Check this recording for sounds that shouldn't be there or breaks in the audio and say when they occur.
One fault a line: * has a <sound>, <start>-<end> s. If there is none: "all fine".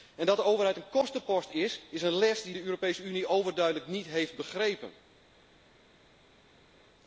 all fine